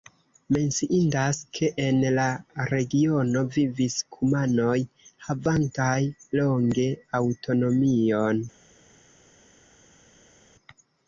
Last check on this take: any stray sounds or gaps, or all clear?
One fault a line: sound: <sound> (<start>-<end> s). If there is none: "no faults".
no faults